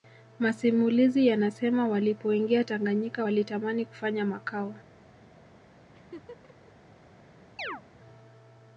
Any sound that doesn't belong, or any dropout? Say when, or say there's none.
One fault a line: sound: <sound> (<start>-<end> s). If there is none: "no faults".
sound: laugh (5.9-6.7 s)
sound: chirp (7.6-7.8 s)